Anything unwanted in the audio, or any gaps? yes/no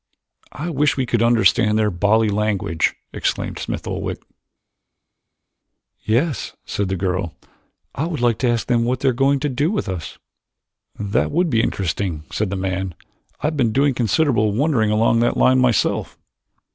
no